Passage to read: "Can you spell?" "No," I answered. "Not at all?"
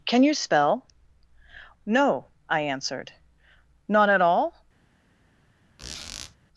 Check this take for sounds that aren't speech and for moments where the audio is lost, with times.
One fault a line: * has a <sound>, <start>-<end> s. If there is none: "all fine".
* has a squeak, 5.8-6.4 s